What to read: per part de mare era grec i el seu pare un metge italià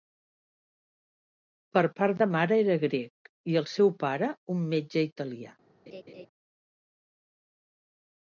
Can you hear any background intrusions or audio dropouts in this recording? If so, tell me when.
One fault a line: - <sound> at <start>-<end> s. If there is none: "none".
- laugh at 5.9-6.3 s